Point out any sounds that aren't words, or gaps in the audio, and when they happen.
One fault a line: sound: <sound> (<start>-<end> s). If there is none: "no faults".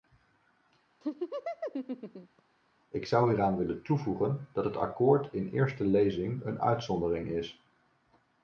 sound: laugh (1.0-2.4 s)